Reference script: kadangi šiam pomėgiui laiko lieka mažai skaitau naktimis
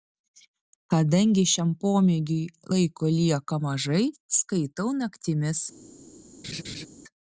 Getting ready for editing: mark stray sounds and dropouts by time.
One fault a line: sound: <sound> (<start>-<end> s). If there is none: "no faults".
sound: laugh (6.4-6.9 s)